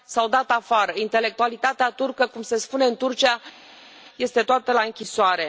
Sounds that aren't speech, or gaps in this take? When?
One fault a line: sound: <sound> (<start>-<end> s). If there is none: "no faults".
no faults